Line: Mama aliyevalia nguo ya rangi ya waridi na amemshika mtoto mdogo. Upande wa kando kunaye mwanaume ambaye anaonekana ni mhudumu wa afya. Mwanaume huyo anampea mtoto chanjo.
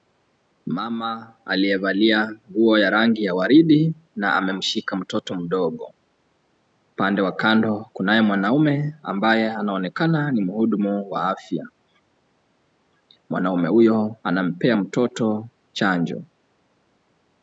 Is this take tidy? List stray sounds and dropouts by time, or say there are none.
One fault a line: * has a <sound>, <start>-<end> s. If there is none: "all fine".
all fine